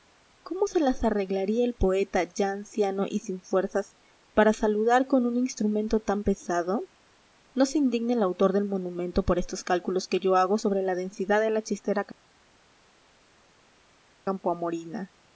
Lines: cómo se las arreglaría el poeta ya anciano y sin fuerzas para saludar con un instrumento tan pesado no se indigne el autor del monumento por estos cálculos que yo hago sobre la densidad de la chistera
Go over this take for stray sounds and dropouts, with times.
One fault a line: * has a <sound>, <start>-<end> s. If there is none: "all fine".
all fine